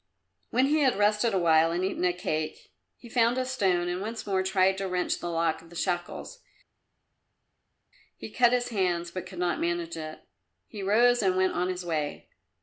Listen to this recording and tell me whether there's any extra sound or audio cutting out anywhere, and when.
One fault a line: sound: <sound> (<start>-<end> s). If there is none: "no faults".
no faults